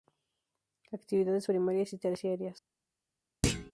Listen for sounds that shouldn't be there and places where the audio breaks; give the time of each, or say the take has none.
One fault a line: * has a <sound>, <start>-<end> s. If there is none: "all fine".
* has a thud, 3.4-3.7 s